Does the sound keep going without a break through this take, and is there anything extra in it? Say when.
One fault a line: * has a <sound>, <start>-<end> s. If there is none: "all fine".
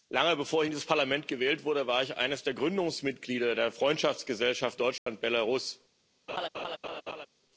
* has a dropout, 5.0-5.1 s
* has a laugh, 6.3-7.3 s